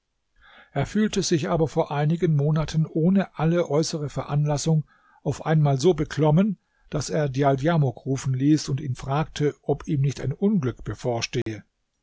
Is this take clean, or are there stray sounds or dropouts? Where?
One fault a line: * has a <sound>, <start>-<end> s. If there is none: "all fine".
* has a dropout, 11.4-11.5 s